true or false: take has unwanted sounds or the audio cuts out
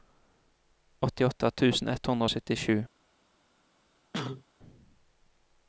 true